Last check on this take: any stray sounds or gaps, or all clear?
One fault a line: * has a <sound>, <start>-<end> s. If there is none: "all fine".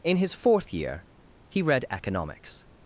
all fine